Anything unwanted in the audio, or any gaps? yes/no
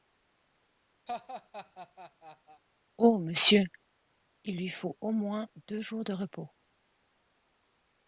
yes